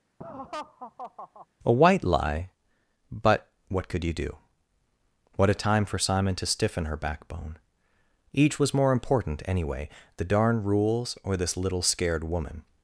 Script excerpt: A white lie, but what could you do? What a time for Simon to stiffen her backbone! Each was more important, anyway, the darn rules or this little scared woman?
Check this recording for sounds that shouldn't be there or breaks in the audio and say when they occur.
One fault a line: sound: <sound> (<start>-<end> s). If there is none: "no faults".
sound: laugh (0.2-1.5 s)